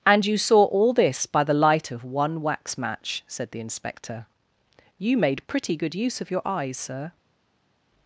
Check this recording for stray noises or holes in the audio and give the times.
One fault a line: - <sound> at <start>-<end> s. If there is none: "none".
none